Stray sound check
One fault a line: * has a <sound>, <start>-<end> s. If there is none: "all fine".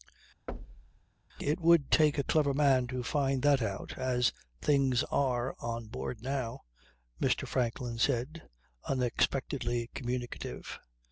* has a thud, 0.5-1.1 s